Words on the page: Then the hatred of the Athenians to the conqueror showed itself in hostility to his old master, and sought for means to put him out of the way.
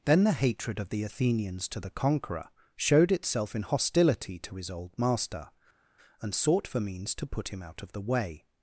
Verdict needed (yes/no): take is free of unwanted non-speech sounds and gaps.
yes